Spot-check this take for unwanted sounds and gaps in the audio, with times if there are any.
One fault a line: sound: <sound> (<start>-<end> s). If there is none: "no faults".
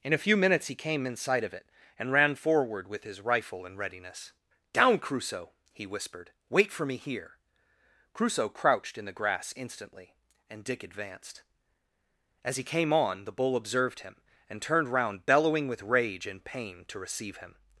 no faults